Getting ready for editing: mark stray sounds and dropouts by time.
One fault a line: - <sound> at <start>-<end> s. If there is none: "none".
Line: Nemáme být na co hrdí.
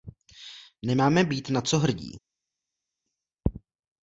none